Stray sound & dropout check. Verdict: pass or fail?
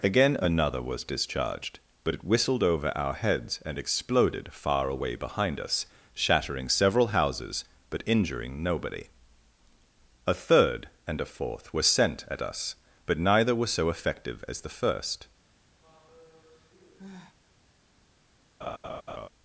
fail